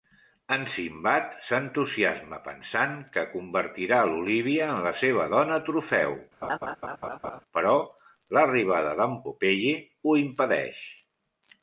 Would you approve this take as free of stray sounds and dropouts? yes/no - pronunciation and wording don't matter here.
no